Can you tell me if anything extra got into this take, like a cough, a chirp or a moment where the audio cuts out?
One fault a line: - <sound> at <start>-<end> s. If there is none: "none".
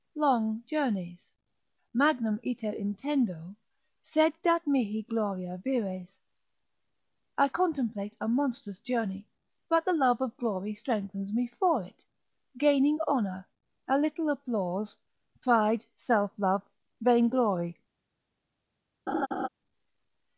- laugh at 19.1-19.5 s